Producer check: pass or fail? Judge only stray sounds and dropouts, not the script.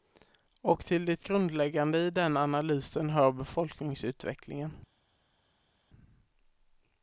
pass